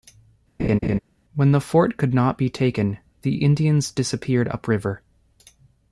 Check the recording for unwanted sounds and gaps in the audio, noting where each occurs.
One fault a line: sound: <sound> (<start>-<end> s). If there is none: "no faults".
sound: laugh (0.6-1.0 s)